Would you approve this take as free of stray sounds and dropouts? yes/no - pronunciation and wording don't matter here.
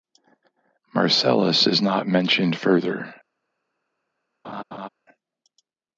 no